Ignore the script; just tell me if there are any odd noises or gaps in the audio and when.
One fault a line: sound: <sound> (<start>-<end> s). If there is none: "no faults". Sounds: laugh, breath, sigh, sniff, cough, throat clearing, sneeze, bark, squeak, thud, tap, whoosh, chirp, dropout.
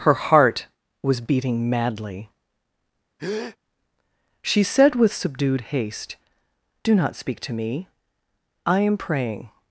sound: breath (3.2-3.6 s)